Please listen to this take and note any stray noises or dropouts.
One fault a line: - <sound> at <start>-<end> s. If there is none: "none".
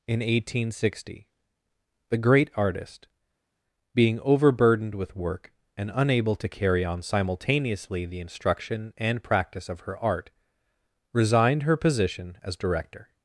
none